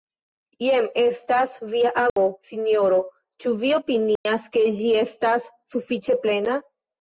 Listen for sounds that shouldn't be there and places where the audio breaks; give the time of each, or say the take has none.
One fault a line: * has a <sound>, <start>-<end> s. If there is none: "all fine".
* has a dropout, 2.1-2.2 s
* has a dropout, 4.2-4.3 s